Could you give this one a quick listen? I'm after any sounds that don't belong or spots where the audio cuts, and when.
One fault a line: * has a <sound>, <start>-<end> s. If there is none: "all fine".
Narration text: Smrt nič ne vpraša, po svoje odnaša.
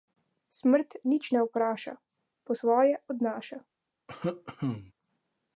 * has a cough, 4.1-4.9 s